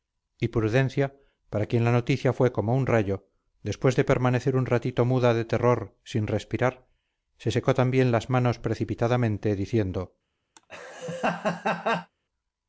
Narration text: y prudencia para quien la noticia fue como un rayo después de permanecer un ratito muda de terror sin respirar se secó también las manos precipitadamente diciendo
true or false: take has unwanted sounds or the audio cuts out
true